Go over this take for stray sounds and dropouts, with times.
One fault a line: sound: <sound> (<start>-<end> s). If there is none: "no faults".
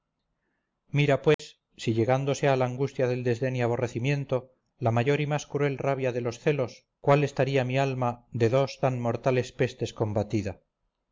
sound: dropout (1.3-1.4 s)